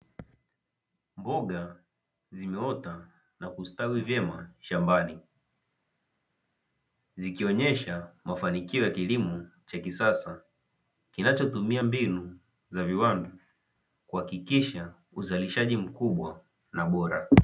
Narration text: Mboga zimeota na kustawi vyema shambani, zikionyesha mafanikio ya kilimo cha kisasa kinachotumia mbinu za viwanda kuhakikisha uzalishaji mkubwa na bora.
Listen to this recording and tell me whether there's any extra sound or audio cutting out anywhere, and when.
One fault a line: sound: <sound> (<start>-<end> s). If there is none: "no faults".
no faults